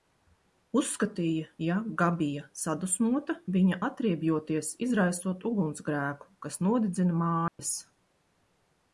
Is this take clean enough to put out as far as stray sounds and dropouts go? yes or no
no